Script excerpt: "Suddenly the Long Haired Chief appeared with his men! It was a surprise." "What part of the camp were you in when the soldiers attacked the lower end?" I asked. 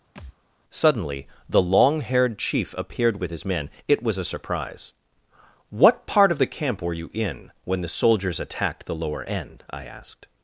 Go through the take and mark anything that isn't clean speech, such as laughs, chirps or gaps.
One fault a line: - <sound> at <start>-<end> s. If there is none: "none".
- thud at 0.2-0.4 s